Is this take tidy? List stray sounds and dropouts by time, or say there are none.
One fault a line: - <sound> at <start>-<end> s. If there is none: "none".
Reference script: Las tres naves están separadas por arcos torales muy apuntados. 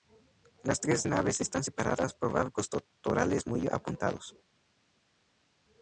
none